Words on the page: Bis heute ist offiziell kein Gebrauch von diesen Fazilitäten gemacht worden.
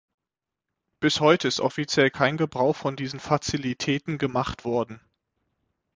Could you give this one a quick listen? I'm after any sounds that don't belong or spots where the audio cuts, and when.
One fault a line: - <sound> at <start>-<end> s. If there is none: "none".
none